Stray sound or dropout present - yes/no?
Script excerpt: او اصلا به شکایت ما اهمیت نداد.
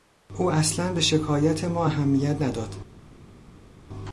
no